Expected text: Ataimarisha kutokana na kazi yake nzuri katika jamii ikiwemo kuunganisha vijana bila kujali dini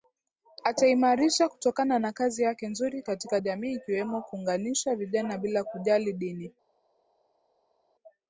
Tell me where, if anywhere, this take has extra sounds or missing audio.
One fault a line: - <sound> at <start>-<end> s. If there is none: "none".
none